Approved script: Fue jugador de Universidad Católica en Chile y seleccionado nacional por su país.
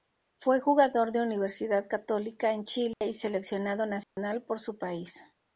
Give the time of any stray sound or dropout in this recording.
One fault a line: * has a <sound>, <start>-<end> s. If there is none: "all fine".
* has a dropout, 2.9-3.0 s
* has a dropout, 4.0-4.2 s